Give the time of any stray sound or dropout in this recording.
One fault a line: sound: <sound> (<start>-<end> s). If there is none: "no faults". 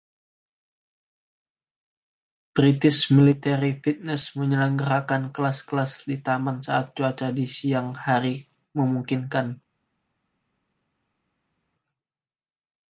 no faults